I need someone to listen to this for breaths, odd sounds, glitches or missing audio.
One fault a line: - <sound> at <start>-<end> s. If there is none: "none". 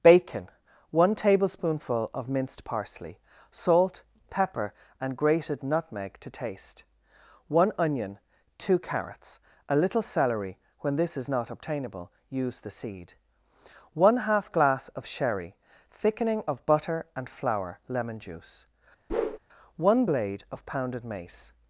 - whoosh at 19.1-19.4 s